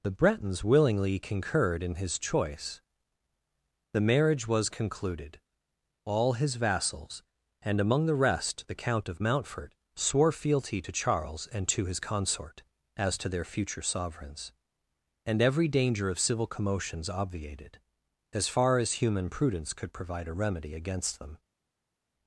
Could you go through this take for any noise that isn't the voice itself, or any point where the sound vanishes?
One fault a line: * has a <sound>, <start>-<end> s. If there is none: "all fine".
all fine